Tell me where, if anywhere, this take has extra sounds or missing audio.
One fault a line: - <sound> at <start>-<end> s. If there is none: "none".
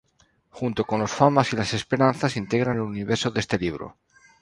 none